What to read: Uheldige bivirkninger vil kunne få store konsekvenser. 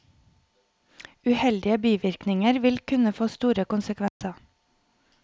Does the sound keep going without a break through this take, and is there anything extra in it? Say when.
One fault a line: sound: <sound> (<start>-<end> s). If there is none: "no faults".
sound: dropout (4.1-4.2 s)